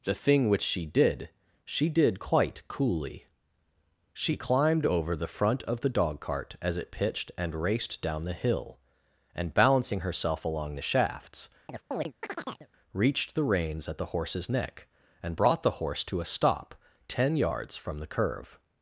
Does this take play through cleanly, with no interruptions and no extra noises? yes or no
no